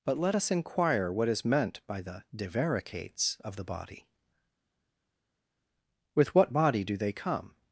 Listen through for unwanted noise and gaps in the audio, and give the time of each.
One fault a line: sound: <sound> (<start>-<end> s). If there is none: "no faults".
no faults